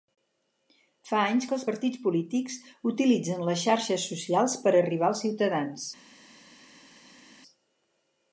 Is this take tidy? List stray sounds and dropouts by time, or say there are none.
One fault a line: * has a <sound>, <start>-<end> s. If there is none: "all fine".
all fine